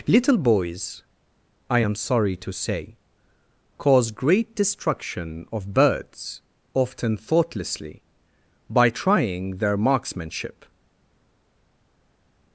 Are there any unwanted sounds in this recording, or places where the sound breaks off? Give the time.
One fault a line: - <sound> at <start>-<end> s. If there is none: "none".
none